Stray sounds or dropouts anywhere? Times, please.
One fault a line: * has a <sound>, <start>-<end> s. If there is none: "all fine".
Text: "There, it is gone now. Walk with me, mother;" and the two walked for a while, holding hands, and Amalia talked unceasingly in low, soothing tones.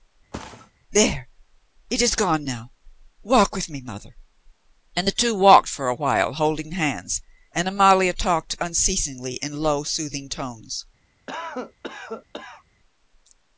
* has a thud, 0.3-0.7 s
* has a cough, 11.3-12.6 s